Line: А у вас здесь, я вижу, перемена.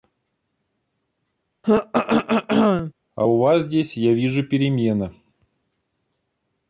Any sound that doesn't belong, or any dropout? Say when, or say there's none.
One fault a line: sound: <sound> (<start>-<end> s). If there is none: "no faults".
sound: throat clearing (1.6-2.9 s)